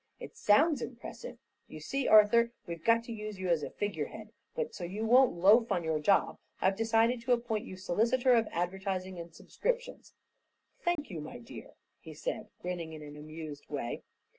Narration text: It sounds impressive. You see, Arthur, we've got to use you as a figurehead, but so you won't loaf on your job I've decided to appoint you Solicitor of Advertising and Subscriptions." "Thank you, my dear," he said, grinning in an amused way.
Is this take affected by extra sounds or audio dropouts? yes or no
yes